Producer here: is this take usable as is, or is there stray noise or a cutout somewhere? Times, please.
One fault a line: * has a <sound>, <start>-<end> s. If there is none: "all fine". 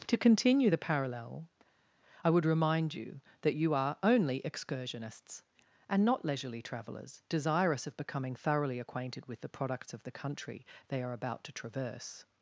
all fine